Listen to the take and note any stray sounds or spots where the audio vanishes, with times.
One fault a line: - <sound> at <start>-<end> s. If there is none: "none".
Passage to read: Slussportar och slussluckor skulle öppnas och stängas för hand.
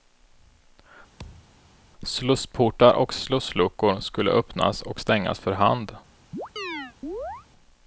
- thud at 1.2-1.6 s
- chirp at 6.3-7.5 s